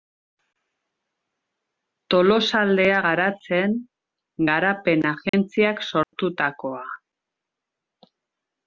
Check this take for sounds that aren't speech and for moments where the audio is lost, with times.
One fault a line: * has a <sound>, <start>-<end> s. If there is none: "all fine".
* has a dropout, 5.3-5.3 s
* has a dropout, 6.0-6.1 s